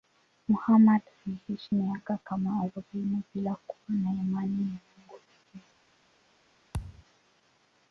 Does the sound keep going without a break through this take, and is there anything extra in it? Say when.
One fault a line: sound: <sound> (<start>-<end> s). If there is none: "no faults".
sound: thud (6.7-7.0 s)